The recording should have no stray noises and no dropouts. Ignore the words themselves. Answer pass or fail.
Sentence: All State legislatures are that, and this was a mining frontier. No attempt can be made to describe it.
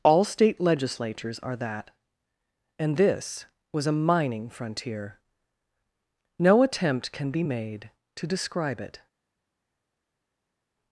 pass